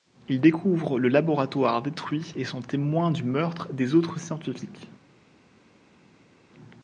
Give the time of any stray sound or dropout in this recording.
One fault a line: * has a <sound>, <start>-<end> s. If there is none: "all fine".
all fine